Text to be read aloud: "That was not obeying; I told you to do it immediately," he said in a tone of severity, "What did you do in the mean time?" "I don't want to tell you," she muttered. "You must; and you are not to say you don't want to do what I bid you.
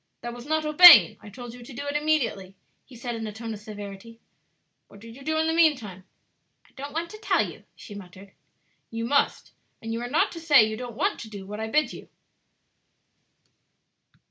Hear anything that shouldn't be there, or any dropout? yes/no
no